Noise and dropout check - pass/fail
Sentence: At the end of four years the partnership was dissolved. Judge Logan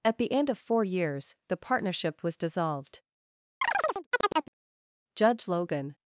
fail